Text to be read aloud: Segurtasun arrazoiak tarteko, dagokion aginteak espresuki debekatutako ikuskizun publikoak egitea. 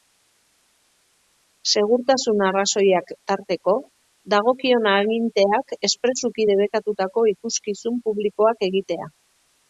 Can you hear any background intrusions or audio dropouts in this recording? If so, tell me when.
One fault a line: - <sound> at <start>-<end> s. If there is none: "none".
none